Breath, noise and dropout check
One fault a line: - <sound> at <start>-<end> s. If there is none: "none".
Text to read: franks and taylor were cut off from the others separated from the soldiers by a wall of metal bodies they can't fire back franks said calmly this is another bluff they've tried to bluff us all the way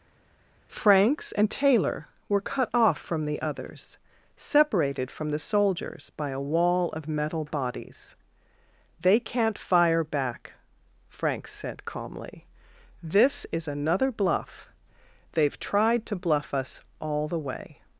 none